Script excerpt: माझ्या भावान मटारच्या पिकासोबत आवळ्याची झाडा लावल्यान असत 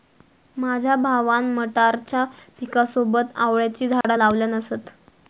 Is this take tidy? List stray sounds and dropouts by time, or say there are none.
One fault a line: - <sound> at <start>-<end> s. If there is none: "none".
- dropout at 4.0-4.0 s